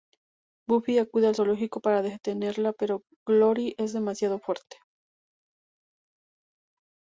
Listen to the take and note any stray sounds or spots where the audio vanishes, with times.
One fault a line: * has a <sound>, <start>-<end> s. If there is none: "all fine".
all fine